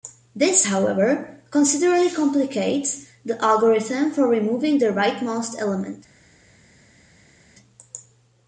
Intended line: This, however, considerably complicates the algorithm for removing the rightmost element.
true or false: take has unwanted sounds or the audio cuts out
false